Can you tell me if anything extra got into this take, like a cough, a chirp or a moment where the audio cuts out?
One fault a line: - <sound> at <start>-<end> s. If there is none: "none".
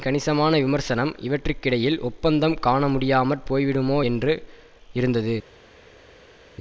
none